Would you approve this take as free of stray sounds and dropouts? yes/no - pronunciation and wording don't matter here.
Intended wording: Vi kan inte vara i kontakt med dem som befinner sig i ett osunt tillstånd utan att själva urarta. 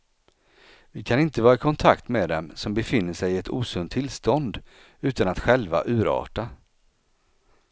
yes